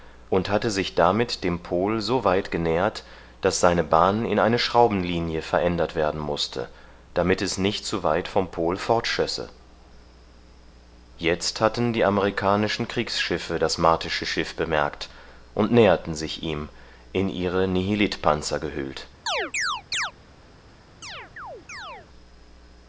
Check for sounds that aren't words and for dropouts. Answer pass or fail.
fail